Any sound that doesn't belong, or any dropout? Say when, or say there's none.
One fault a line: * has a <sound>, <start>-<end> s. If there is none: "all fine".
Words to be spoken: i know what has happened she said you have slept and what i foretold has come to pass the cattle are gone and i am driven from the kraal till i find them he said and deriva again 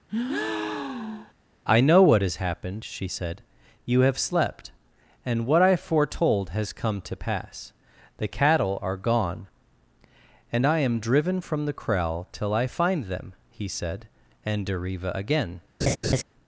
* has a breath, 0.1-1.3 s
* has a laugh, 15.8-16.2 s